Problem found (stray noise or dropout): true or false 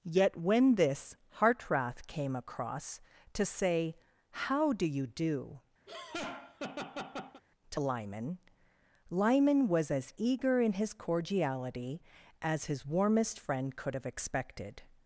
true